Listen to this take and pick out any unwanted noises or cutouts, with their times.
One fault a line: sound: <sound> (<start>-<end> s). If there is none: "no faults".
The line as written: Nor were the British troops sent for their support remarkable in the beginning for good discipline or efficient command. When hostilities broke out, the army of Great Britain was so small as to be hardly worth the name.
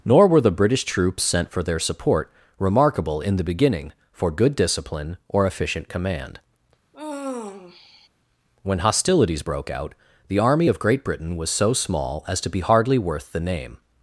sound: sigh (6.9-8.1 s)